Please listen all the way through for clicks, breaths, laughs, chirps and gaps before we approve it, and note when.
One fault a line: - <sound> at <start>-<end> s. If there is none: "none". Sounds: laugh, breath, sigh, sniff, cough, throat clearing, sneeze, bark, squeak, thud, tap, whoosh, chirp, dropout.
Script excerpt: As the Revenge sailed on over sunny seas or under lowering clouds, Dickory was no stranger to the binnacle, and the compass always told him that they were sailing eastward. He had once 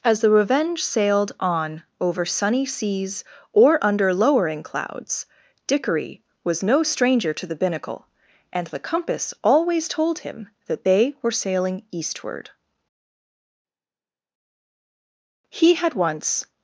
none